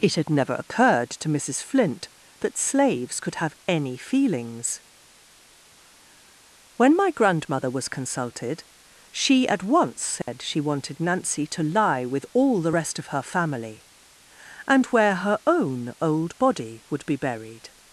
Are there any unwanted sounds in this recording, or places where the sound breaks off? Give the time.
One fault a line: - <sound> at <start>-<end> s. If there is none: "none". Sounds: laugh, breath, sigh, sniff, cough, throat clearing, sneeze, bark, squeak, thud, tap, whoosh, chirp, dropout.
- dropout at 10.2-10.3 s